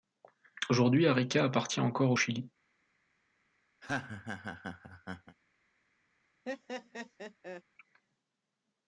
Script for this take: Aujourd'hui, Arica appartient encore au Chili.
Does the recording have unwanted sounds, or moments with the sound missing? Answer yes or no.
yes